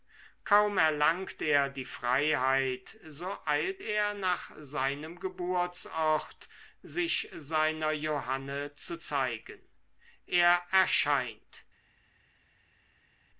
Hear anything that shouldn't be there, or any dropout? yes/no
no